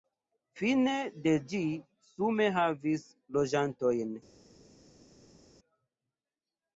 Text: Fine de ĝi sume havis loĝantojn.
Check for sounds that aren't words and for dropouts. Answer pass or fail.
pass